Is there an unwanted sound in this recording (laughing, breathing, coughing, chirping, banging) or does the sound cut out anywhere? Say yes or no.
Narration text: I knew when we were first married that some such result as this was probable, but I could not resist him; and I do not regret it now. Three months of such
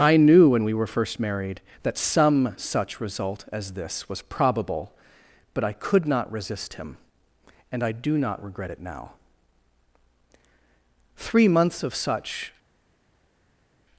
no